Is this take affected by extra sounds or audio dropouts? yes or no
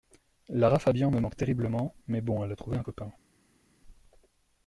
no